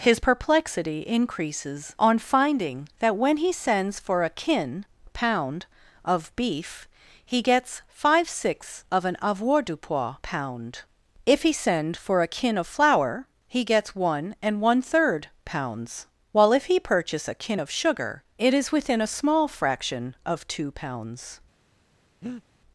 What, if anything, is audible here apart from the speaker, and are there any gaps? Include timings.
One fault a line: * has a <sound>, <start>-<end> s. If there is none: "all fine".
* has a breath, 22.2-22.4 s